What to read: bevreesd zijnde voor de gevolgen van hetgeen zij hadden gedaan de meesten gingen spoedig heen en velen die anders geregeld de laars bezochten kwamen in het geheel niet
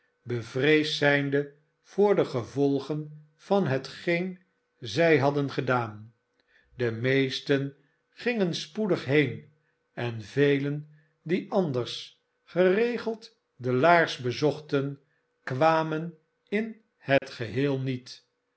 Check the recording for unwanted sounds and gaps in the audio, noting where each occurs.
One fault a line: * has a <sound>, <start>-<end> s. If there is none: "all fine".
* has a dropout, 17.2-17.2 s